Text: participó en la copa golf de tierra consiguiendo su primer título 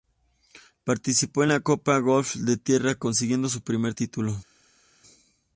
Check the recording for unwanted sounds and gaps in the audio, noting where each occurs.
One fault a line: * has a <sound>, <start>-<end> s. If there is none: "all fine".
all fine